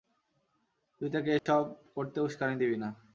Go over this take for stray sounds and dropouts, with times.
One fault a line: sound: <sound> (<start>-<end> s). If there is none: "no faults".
sound: dropout (1.4-1.5 s)